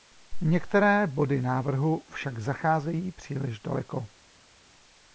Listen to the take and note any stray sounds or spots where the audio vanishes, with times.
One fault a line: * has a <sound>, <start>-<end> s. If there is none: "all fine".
all fine